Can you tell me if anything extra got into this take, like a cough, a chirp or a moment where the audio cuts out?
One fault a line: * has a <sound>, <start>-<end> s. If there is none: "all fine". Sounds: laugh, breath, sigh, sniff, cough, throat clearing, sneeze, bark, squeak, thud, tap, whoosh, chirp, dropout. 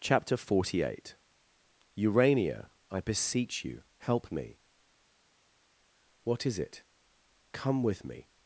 all fine